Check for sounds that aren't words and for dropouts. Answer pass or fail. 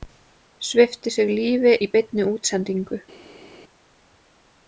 pass